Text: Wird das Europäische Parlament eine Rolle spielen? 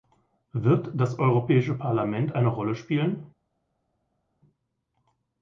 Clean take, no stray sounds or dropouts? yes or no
yes